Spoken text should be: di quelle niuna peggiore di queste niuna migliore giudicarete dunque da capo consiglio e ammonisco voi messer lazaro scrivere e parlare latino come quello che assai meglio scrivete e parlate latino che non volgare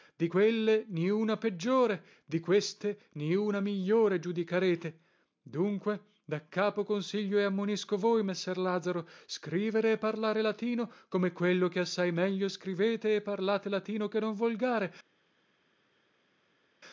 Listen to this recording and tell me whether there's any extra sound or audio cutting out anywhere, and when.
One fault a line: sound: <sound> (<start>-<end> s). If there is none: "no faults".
no faults